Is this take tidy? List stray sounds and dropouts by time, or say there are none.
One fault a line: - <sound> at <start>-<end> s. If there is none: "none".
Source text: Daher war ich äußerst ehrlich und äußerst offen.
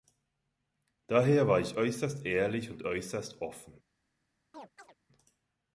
- chirp at 4.5-4.9 s